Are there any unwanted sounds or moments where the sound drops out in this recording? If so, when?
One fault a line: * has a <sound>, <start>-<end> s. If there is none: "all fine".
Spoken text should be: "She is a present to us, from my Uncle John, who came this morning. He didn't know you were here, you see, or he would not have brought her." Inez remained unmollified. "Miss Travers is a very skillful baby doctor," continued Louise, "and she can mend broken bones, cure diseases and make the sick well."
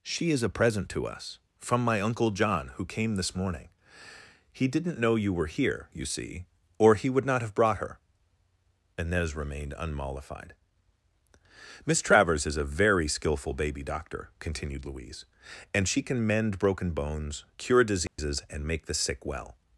* has a dropout, 18.1-18.2 s